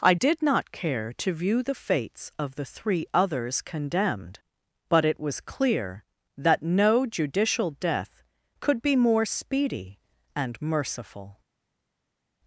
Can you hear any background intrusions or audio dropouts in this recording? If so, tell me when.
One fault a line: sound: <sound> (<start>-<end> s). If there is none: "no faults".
no faults